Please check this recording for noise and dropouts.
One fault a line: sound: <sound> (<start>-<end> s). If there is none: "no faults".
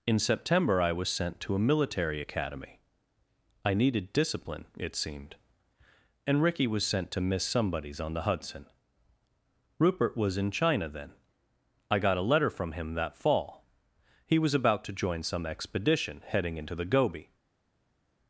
no faults